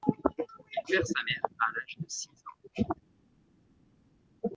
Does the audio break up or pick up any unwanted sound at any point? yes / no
no